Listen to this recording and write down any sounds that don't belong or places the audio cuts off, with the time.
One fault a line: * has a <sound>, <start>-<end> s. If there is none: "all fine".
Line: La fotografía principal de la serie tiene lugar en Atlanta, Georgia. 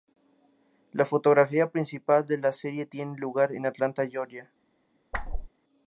* has a whoosh, 5.1-5.5 s